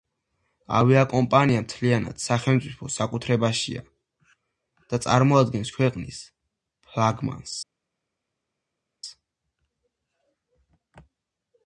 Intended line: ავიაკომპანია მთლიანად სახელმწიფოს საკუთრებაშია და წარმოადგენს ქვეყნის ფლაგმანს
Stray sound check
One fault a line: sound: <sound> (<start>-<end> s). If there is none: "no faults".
no faults